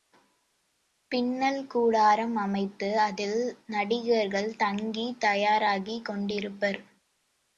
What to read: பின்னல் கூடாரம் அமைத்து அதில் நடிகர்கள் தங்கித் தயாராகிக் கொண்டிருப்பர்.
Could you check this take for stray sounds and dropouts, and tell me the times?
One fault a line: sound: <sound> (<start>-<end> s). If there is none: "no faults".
no faults